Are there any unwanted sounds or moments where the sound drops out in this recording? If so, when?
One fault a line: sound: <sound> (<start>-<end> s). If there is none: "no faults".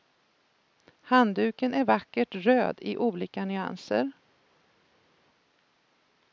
no faults